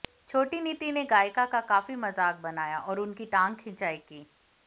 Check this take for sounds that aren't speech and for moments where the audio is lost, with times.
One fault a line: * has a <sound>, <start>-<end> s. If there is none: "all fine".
all fine